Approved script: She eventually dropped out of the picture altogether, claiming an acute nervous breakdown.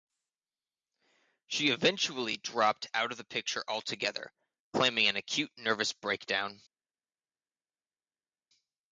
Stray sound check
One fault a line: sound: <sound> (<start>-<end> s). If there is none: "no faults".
no faults